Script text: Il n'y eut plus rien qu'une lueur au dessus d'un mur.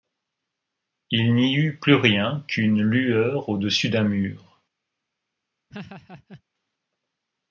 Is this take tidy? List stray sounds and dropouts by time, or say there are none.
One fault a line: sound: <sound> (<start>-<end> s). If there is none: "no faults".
sound: laugh (5.7-6.4 s)